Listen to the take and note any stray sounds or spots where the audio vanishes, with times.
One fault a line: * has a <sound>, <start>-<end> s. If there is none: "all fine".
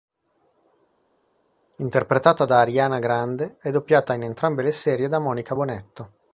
all fine